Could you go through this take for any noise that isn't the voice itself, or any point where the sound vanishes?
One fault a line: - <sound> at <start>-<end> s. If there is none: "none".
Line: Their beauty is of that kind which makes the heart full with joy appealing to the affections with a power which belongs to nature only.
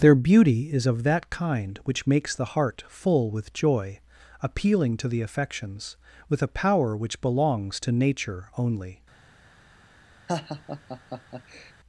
- laugh at 10.3-11.7 s